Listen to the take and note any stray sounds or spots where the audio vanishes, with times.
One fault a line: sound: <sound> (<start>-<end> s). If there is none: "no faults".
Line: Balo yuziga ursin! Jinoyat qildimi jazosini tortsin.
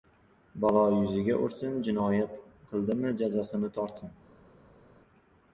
no faults